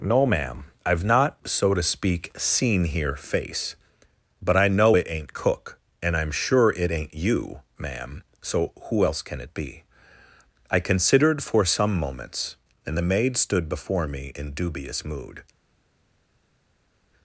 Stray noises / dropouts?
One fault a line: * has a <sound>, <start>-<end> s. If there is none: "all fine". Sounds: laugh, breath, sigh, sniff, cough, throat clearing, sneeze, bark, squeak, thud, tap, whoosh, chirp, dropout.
all fine